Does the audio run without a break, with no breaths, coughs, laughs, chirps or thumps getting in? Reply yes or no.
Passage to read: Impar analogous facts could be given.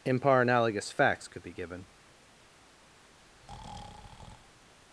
no